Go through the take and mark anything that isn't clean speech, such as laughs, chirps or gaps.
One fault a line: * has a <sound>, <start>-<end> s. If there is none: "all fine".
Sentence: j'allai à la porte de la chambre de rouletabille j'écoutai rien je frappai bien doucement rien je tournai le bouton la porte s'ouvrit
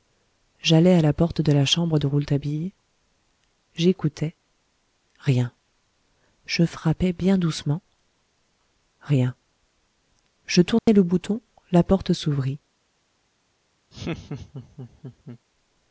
* has a dropout, 10.8-10.9 s
* has a laugh, 13.9-15.4 s